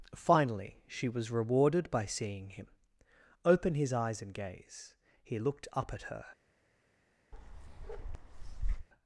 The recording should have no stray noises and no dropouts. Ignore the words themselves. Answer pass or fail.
fail